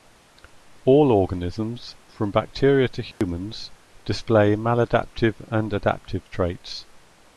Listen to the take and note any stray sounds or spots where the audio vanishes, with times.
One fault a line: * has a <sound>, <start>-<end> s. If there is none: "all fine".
* has a dropout, 3.1-3.2 s